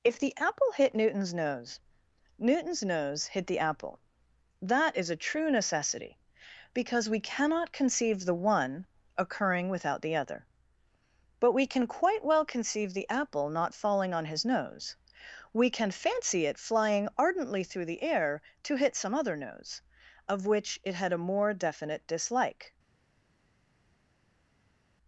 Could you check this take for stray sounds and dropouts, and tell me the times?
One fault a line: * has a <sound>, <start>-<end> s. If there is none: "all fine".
all fine